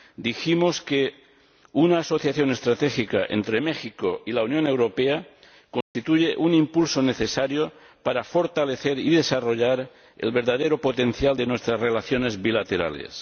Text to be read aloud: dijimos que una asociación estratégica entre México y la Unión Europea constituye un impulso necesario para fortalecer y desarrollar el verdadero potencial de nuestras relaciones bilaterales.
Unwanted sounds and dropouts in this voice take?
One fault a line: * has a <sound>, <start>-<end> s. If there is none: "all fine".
* has a dropout, 5.8-5.9 s